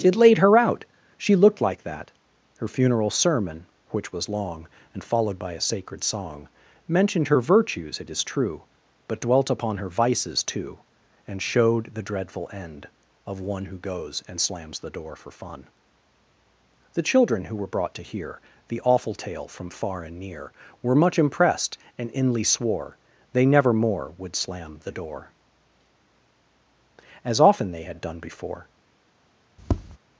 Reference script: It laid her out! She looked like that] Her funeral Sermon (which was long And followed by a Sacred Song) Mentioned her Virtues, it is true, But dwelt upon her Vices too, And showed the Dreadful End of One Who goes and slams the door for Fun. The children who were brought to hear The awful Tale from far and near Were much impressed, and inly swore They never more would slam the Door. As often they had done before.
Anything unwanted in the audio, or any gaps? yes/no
yes